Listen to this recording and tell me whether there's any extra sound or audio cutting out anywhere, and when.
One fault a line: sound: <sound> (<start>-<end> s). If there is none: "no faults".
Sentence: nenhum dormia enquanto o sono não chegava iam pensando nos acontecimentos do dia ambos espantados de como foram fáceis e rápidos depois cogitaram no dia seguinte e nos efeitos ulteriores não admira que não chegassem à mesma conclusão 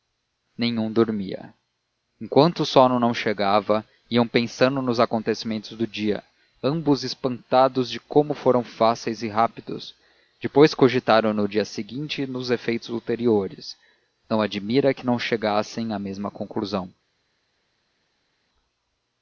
no faults